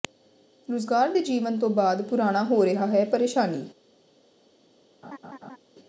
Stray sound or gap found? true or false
true